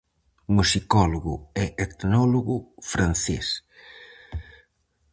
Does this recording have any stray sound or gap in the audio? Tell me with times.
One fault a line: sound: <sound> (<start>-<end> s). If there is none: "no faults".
no faults